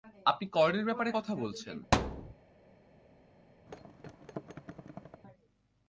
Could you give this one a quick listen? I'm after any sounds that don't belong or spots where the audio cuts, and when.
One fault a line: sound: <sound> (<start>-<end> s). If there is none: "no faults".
sound: thud (1.9-2.3 s)
sound: thud (3.7-5.2 s)